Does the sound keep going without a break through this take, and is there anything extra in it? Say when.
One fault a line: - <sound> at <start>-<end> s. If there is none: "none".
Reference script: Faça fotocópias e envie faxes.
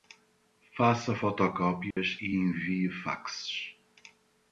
- dropout at 1.9-2.0 s